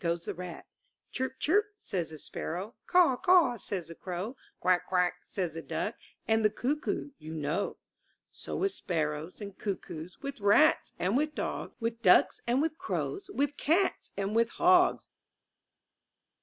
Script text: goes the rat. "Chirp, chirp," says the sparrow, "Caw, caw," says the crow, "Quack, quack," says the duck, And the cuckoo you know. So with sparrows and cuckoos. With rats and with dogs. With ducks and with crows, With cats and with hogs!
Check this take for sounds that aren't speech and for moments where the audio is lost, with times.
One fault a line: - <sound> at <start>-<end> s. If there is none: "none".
none